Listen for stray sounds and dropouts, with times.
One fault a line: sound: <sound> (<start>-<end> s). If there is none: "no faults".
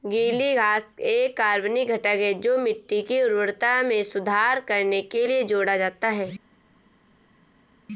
no faults